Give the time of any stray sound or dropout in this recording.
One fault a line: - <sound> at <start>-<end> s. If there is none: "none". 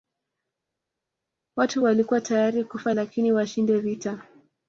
none